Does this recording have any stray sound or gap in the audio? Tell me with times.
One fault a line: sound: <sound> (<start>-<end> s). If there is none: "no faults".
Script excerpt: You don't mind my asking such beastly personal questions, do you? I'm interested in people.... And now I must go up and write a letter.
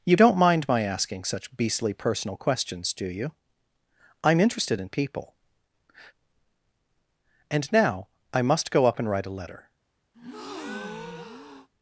sound: breath (10.1-11.7 s)